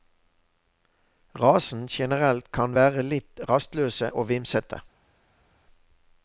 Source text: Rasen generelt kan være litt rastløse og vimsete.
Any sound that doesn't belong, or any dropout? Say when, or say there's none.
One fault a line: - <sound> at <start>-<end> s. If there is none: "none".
none